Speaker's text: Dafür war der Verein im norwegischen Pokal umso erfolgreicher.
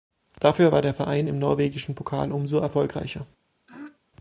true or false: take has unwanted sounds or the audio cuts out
true